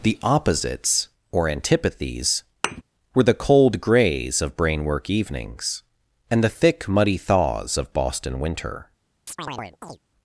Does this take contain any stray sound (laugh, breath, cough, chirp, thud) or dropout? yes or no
yes